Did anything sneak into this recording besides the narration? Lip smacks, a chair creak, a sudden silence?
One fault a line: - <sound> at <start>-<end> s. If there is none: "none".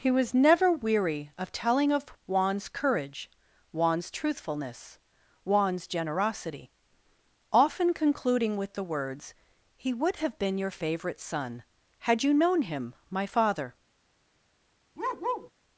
- bark at 15.0-15.5 s